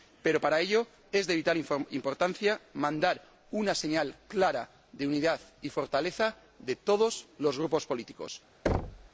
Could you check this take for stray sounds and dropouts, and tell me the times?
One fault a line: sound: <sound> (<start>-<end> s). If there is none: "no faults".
sound: thud (8.7-9.1 s)